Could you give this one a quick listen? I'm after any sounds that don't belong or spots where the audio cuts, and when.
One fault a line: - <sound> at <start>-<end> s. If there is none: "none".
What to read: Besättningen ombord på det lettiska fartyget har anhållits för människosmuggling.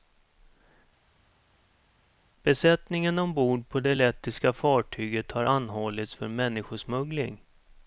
none